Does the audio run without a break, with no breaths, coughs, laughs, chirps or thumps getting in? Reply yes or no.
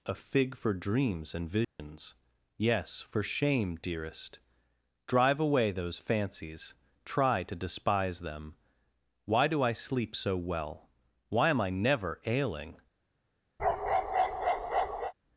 no